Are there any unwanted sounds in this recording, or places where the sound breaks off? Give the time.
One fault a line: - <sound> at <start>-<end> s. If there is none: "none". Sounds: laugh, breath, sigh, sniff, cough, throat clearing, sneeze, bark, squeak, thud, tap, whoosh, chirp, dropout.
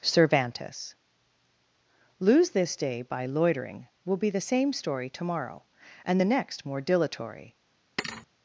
- thud at 8.0-8.3 s